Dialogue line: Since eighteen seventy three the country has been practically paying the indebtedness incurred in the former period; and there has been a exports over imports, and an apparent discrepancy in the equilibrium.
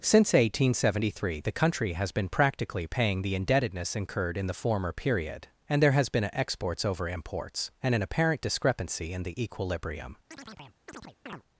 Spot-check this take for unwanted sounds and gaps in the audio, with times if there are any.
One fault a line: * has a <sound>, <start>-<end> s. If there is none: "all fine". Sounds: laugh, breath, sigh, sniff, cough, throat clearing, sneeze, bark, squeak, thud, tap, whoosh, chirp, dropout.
* has a chirp, 10.3-11.4 s